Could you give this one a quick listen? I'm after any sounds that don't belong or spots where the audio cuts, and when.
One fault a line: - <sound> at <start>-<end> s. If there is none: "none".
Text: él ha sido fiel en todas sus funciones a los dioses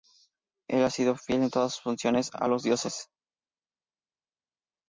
none